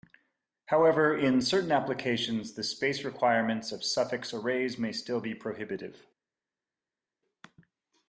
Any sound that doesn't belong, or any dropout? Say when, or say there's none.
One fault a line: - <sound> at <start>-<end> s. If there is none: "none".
none